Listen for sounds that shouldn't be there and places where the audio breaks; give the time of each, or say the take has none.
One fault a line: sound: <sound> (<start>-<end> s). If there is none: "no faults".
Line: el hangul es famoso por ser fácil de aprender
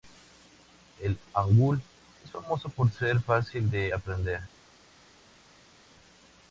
no faults